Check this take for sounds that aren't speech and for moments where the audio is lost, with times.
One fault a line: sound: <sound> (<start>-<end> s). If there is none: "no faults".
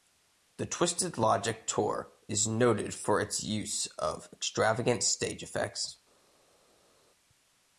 no faults